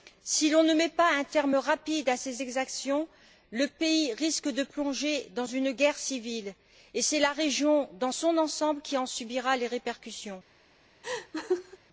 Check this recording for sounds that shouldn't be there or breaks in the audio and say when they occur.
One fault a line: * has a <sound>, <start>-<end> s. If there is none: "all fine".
* has a laugh, 11.0-11.8 s